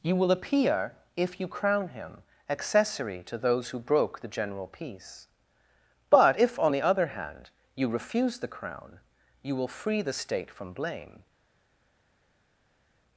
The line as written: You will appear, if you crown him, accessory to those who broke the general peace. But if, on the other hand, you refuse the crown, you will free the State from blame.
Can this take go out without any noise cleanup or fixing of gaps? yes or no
yes